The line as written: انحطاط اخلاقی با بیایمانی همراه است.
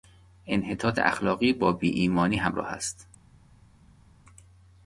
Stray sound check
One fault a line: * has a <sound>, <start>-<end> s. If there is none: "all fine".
all fine